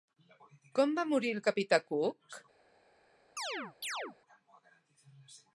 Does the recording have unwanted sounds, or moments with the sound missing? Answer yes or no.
yes